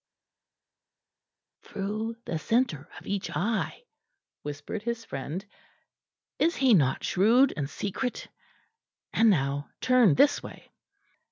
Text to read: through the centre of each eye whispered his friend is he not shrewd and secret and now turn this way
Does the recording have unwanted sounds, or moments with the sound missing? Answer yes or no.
no